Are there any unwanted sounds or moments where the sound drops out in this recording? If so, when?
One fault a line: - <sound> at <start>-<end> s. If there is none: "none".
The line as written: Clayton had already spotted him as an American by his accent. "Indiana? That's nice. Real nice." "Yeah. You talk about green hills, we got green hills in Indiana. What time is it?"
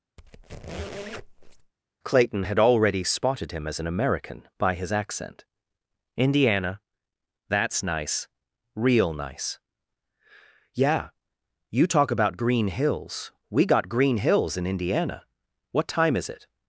- squeak at 0.2-1.7 s